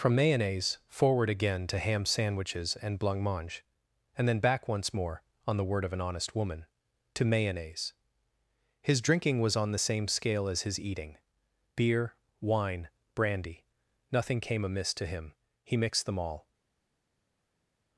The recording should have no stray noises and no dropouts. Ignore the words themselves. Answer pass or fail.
pass